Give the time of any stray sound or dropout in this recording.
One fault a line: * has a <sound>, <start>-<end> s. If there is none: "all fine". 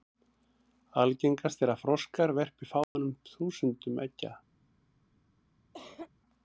* has a dropout, 2.8-3.0 s
* has a cough, 5.7-6.1 s